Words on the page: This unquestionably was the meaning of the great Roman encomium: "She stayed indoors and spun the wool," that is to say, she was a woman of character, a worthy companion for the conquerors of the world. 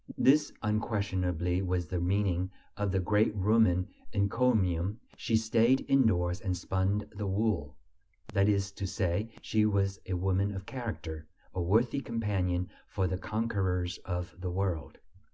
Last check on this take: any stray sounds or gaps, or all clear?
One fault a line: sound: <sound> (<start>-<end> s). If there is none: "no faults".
no faults